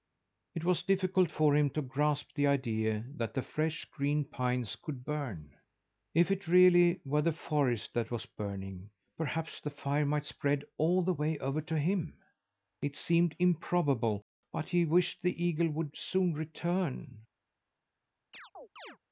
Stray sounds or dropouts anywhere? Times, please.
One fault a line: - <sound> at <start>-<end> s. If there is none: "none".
- chirp at 18.3-19.0 s